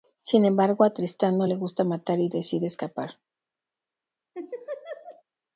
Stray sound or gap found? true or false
true